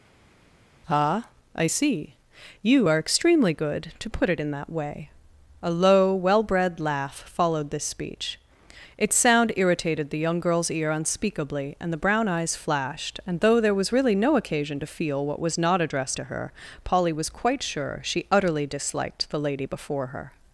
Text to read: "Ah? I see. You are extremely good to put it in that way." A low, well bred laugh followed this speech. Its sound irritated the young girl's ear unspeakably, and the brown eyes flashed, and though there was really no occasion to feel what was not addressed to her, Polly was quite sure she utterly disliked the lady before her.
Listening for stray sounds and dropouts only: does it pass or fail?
pass